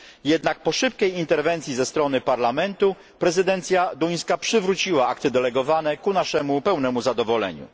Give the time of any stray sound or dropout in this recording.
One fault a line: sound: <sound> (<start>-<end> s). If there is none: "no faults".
no faults